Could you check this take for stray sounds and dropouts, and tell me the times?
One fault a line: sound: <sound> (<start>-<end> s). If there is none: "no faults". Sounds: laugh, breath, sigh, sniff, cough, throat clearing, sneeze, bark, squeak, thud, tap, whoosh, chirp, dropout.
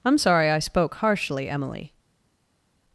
no faults